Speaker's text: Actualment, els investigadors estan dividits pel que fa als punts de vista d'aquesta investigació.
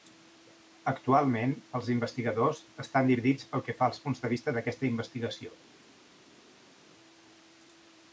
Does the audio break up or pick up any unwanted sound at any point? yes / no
no